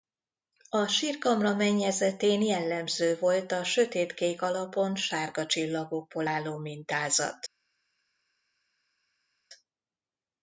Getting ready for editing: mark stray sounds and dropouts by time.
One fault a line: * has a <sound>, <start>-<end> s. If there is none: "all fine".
all fine